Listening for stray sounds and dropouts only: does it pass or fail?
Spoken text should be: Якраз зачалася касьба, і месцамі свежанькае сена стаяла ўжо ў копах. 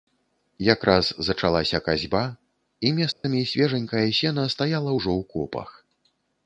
fail